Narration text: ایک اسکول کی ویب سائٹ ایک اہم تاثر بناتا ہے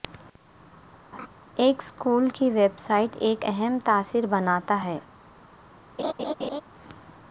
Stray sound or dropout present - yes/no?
yes